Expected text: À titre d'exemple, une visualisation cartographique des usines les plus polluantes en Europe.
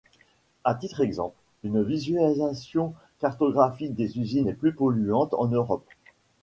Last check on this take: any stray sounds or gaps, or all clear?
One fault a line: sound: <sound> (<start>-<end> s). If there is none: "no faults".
no faults